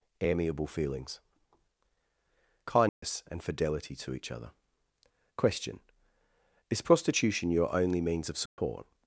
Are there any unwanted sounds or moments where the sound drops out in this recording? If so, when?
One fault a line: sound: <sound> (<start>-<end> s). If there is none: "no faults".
sound: dropout (2.9-3.0 s)
sound: dropout (8.5-8.6 s)